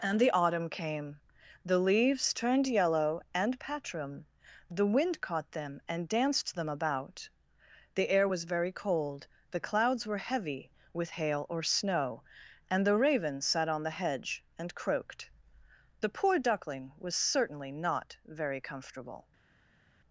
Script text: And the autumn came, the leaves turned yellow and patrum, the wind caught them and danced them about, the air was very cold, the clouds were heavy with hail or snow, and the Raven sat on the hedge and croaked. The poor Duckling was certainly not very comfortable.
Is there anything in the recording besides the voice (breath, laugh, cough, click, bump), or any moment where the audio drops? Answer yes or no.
no